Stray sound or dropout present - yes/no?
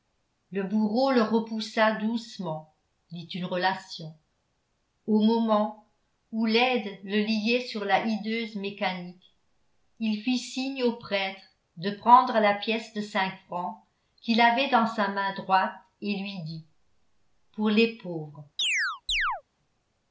yes